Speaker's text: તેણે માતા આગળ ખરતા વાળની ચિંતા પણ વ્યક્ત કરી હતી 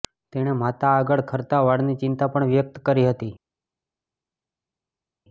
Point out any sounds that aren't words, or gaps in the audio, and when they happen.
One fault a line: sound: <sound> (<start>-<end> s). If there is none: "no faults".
no faults